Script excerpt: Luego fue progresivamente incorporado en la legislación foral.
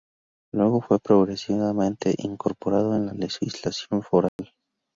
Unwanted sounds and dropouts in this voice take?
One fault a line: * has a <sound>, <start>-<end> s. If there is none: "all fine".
* has a dropout, 4.3-4.4 s